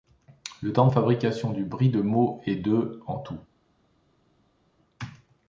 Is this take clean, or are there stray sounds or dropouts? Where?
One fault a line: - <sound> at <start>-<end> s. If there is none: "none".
none